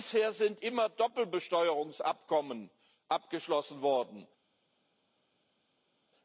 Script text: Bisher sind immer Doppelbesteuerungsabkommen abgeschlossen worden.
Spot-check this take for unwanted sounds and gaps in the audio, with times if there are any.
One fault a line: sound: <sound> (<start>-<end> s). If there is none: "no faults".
no faults